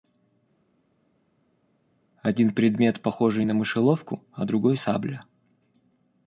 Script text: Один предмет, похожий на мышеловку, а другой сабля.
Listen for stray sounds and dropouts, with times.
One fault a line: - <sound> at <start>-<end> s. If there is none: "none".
none